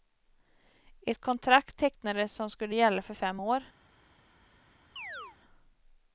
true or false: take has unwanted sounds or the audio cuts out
true